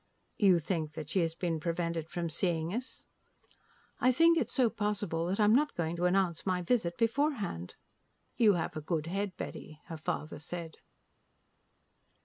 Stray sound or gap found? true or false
false